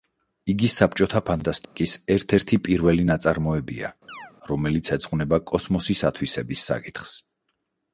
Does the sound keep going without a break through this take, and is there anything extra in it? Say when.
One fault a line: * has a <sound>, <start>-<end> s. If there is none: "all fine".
* has a dropout, 1.6-1.8 s
* has a chirp, 4.1-4.3 s